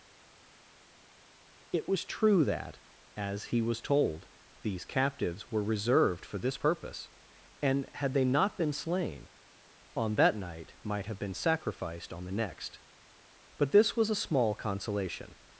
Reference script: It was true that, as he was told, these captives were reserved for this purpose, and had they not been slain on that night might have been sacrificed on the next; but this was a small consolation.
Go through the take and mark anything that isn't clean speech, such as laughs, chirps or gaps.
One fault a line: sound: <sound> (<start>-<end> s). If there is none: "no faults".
no faults